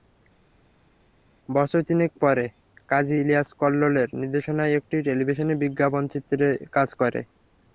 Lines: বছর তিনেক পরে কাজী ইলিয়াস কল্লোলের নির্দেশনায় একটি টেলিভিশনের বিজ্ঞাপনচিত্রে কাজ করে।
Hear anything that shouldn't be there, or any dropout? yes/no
no